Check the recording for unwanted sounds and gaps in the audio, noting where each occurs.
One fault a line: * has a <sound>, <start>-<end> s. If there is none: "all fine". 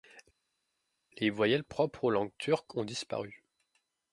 all fine